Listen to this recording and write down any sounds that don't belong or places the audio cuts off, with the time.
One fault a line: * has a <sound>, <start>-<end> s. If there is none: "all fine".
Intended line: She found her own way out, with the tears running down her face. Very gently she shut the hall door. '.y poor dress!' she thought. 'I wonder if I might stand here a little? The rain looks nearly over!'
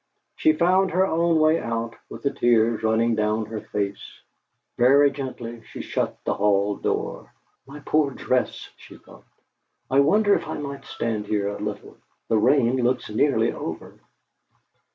all fine